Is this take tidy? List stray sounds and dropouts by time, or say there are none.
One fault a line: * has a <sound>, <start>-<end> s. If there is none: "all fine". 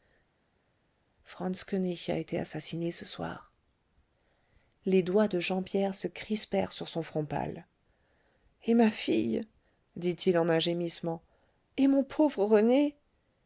all fine